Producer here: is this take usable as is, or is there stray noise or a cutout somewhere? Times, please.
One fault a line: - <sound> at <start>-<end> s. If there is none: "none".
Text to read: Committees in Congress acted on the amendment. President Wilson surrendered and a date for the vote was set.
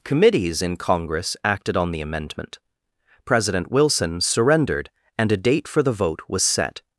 none